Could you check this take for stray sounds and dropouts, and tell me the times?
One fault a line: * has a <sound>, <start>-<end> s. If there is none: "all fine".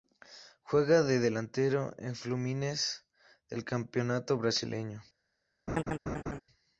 * has a laugh, 5.7-6.4 s